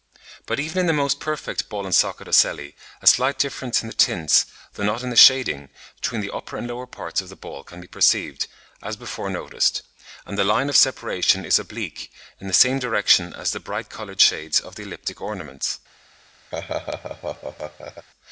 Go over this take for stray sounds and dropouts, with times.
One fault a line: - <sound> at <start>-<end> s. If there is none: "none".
- laugh at 16.5-18.1 s